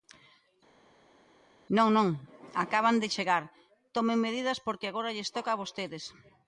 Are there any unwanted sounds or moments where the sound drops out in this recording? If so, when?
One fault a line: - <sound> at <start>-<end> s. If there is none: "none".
none